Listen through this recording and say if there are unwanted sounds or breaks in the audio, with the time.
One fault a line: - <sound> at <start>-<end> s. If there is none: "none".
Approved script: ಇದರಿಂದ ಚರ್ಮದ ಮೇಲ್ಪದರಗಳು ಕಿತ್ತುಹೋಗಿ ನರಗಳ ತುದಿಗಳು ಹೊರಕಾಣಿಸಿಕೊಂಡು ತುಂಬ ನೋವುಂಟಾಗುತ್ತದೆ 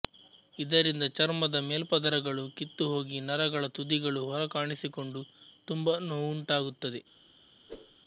- whoosh at 7.7-8.0 s